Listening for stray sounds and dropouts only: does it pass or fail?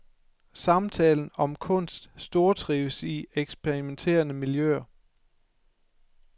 pass